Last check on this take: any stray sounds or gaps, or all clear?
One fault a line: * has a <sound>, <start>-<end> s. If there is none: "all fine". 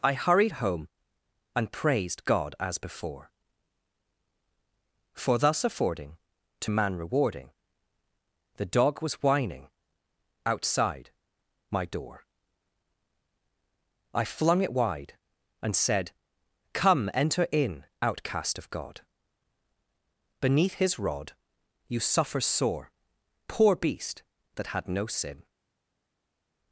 all fine